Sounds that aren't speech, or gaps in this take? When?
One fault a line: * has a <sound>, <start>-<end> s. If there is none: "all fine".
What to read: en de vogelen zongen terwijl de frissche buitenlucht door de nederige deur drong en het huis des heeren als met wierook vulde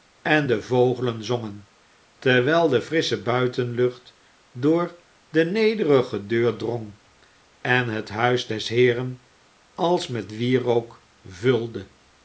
all fine